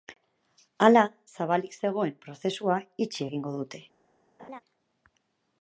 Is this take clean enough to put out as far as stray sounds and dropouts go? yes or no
no